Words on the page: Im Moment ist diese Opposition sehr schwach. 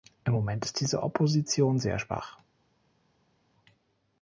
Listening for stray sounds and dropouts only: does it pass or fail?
pass